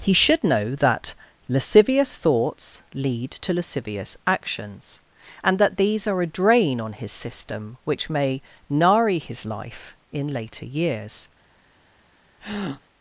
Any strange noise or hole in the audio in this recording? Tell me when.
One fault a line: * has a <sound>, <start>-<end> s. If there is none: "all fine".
* has a breath, 12.4-12.8 s